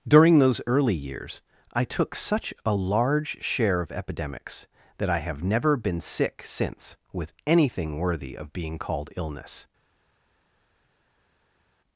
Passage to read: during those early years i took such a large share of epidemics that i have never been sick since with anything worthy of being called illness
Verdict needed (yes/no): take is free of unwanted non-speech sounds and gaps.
yes